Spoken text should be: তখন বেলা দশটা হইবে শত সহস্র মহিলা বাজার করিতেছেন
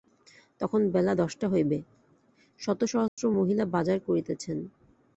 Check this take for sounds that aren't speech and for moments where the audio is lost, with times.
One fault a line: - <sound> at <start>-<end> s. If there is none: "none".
- dropout at 3.1-3.2 s